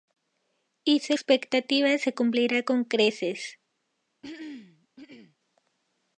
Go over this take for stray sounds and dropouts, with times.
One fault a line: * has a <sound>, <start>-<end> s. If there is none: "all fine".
* has a throat clearing, 4.2-5.4 s